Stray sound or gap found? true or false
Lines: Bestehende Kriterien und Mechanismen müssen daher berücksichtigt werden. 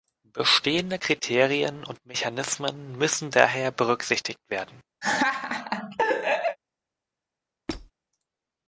true